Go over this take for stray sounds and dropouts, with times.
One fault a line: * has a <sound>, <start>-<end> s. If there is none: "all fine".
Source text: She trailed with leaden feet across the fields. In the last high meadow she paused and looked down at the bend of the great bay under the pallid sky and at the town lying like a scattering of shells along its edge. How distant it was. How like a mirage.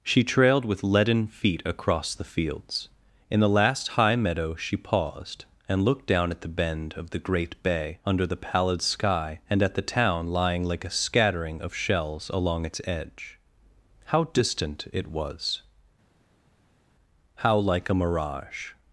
all fine